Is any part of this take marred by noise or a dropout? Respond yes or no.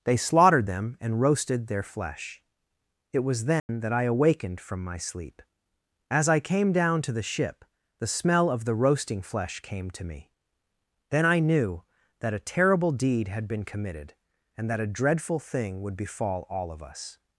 yes